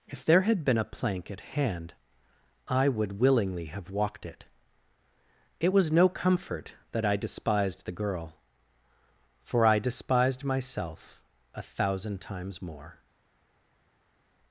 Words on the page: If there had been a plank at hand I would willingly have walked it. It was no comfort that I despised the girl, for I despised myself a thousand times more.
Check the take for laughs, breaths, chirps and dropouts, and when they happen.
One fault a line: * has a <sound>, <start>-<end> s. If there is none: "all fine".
all fine